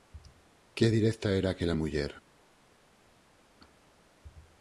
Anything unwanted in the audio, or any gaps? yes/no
no